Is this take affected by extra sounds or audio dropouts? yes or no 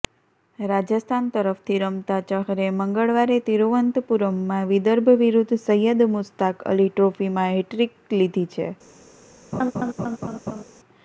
yes